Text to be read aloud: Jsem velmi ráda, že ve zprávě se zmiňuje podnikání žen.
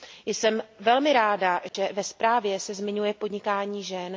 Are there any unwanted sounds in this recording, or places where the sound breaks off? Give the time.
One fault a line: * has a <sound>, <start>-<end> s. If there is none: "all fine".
* has a dropout, 1.7-1.7 s